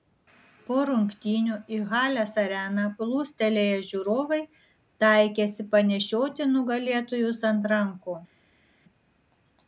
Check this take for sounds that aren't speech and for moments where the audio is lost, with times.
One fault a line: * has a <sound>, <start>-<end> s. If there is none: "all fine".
all fine